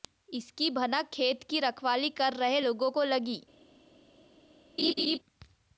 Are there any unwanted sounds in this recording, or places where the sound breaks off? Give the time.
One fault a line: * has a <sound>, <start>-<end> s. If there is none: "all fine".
* has a laugh, 4.8-5.2 s